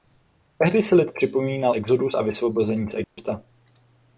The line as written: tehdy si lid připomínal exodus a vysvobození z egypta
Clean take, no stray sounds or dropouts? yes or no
no